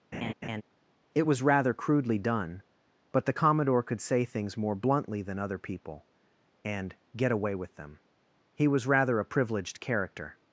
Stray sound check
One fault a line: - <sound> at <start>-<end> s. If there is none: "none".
- laugh at 0.1-0.6 s